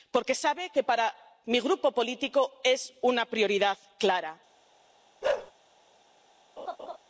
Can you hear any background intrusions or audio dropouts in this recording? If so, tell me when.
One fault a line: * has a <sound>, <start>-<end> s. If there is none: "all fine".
* has a bark, 5.2-5.5 s
* has a laugh, 6.6-7.0 s